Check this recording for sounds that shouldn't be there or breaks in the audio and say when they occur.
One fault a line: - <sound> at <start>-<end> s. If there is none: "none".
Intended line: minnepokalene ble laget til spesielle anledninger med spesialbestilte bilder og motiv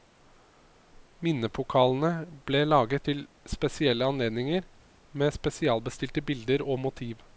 none